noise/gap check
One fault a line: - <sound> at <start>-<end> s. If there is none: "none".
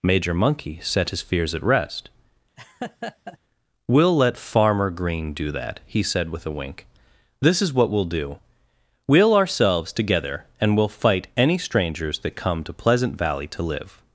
- laugh at 2.6-3.4 s